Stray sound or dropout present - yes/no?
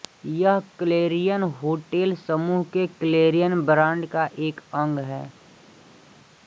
no